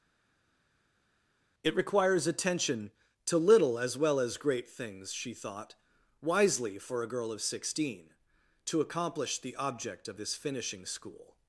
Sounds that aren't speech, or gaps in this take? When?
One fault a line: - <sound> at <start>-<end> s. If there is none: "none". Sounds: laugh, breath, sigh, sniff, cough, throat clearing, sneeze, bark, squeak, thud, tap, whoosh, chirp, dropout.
none